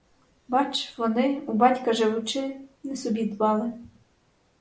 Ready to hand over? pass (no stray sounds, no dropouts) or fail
pass